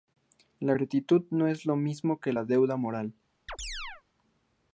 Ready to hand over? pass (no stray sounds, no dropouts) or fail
fail